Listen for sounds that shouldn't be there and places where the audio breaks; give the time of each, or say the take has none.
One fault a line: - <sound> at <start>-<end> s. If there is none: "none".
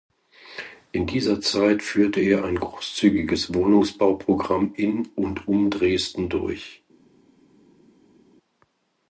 none